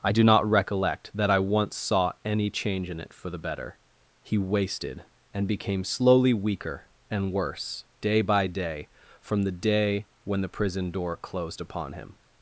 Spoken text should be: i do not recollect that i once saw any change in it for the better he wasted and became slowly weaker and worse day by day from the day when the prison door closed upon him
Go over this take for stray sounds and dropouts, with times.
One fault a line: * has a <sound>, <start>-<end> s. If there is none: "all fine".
all fine